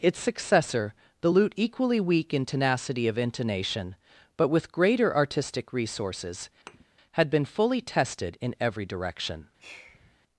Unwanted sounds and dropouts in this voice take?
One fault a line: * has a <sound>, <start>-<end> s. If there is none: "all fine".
* has a thud, 6.7-6.8 s
* has a sigh, 9.6-10.2 s